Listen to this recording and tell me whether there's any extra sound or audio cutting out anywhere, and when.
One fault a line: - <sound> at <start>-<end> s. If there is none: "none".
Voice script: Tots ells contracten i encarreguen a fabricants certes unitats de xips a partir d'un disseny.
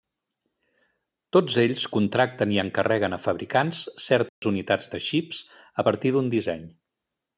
- dropout at 4.3-4.4 s